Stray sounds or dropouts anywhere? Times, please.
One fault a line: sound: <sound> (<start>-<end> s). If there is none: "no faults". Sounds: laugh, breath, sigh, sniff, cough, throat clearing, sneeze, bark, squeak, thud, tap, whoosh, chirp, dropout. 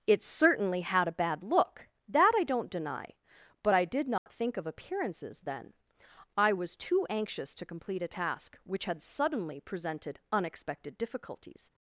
sound: dropout (4.2-4.3 s)